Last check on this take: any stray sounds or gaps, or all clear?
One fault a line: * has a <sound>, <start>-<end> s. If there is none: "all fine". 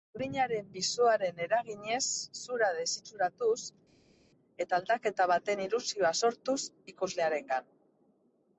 all fine